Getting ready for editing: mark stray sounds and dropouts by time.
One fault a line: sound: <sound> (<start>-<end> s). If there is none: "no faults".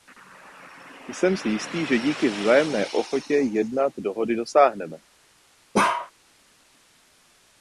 sound: bark (5.7-6.1 s)